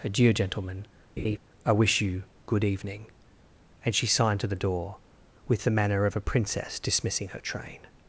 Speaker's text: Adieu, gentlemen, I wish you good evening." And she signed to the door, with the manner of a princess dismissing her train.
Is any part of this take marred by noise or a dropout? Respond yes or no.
yes